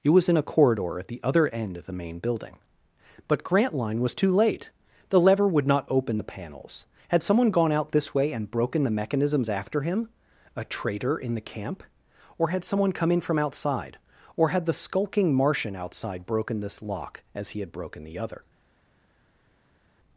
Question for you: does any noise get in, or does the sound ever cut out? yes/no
no